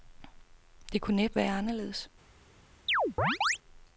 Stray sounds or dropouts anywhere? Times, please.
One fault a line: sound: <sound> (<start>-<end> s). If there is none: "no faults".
sound: chirp (2.9-3.6 s)